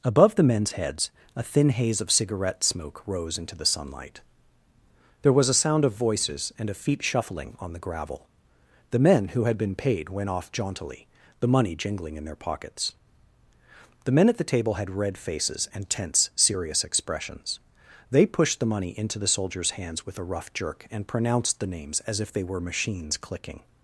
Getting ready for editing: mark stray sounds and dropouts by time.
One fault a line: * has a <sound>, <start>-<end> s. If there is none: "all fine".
all fine